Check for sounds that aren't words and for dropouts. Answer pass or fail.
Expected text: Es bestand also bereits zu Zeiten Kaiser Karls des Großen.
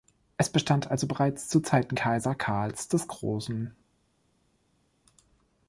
pass